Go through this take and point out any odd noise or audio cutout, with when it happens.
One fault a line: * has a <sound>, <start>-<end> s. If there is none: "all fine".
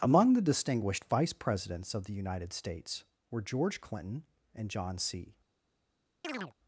* has a chirp, 6.2-6.5 s